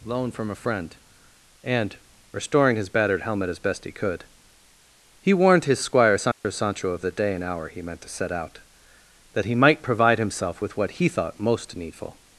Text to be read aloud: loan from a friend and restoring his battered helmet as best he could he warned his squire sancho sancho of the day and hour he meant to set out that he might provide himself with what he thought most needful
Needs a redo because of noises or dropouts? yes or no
yes